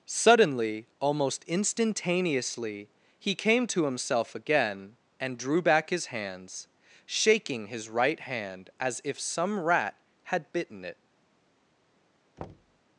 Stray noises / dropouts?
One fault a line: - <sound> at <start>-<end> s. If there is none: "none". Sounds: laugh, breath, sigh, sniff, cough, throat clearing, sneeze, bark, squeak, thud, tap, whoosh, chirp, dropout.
- thud at 12.4-12.8 s